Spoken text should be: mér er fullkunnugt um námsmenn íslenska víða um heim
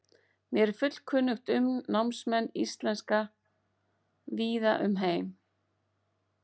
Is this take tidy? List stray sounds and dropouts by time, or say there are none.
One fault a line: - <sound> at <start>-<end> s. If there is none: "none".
none